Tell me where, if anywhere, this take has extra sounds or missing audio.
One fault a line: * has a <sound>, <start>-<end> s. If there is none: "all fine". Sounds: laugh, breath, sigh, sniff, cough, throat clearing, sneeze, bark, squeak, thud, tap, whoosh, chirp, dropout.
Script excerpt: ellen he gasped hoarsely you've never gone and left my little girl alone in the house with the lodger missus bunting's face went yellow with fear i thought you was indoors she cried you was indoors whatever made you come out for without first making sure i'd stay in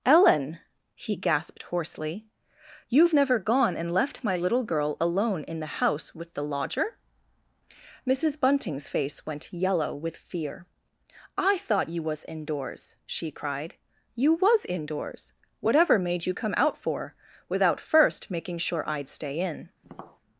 * has a tap, 19.8-20.2 s